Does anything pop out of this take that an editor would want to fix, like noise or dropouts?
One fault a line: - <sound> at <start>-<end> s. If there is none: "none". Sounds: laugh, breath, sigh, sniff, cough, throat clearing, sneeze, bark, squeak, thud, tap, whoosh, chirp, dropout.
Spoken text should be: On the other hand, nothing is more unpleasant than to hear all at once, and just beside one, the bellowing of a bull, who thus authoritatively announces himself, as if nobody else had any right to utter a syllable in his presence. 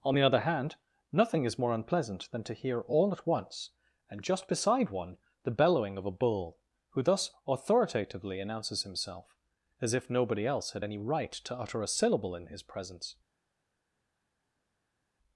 none